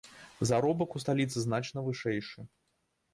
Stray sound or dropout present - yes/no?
no